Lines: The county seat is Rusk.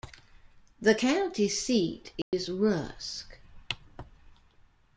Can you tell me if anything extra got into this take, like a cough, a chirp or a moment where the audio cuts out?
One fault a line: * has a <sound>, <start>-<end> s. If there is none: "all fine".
* has a dropout, 2.2-2.3 s